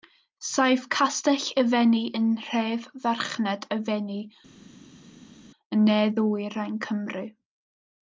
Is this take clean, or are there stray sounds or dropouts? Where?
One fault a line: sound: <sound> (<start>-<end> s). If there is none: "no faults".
no faults